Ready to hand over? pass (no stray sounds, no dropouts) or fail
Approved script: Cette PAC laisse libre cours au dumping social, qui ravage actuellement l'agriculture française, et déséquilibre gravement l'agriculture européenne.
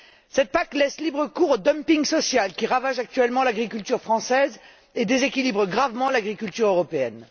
pass